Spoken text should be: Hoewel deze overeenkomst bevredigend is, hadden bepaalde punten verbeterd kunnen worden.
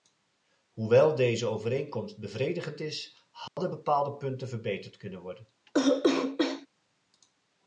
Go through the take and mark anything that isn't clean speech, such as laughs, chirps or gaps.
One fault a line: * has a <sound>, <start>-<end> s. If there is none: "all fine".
* has a dropout, 3.5-3.6 s
* has a cough, 5.7-6.7 s